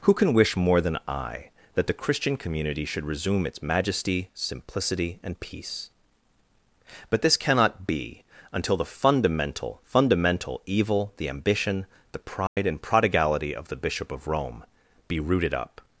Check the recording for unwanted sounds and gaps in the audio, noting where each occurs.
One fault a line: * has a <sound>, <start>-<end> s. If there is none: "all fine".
* has a dropout, 12.5-12.6 s